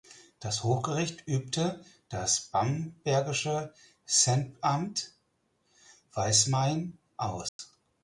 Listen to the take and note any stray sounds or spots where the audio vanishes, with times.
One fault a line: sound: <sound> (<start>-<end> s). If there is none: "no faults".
sound: dropout (7.5-7.6 s)